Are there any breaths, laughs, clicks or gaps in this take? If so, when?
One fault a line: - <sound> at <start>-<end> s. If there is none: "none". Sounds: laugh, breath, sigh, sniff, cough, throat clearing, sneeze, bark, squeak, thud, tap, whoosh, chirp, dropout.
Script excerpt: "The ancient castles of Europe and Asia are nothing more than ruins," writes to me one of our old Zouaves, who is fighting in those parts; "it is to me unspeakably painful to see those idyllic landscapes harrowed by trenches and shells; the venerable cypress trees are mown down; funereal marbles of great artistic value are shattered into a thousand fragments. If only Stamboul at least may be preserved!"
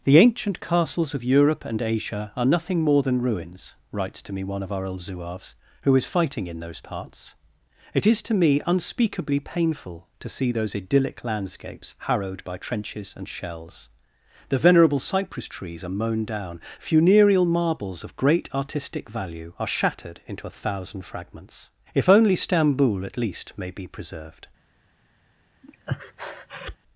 - breath at 25.6-26.8 s